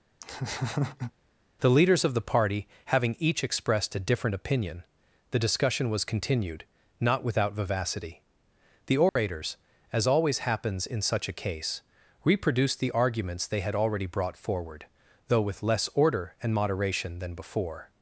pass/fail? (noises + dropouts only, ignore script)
fail